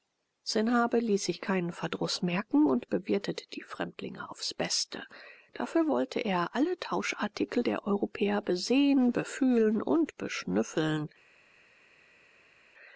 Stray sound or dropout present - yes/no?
no